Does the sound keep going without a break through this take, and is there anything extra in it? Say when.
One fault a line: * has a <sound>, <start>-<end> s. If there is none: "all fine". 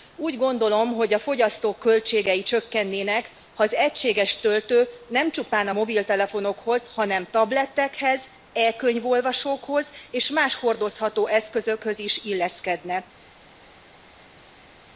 all fine